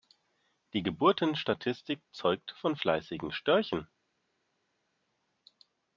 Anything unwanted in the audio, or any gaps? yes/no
no